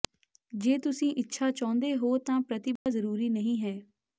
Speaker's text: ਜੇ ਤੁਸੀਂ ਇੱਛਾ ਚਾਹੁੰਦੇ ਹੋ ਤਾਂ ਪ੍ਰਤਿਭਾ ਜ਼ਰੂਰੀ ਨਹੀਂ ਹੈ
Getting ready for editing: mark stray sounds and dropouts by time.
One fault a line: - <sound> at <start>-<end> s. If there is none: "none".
- dropout at 2.8-2.9 s